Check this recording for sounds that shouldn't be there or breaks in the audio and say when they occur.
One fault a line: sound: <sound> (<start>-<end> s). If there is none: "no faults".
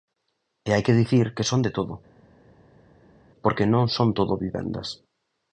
no faults